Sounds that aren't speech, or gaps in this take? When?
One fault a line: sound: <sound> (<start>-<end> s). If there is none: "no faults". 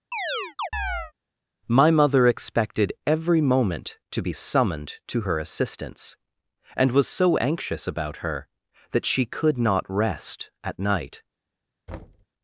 sound: chirp (0.1-1.1 s)
sound: thud (11.9-12.3 s)